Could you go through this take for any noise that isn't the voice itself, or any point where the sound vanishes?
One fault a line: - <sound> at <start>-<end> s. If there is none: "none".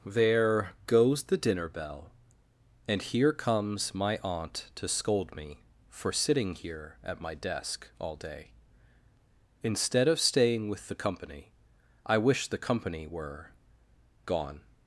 none